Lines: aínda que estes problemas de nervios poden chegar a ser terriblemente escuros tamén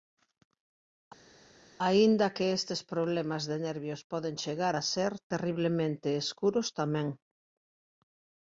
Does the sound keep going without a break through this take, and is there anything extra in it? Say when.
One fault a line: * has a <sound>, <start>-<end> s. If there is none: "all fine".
all fine